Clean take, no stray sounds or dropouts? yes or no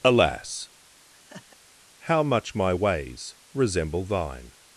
no